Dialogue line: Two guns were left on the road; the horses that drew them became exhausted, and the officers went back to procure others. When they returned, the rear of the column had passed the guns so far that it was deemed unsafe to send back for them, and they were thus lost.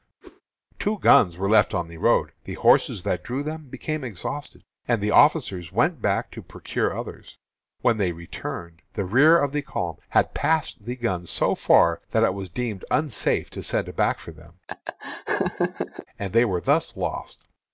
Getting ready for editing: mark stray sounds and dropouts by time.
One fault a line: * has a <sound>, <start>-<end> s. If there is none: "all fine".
* has a whoosh, 0.2-0.4 s
* has a laugh, 14.7-16.1 s